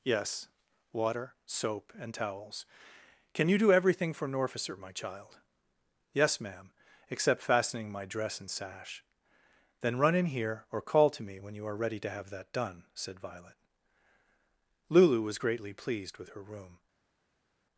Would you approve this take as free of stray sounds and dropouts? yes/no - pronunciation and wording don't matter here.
yes